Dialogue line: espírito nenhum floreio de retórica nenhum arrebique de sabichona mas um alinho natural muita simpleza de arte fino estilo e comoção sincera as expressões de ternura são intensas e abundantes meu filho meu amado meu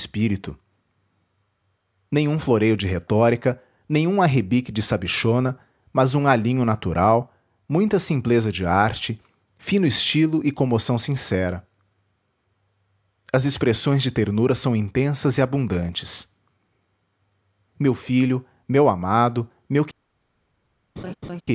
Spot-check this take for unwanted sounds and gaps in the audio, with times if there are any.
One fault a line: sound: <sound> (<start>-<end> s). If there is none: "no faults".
sound: laugh (21.0-21.4 s)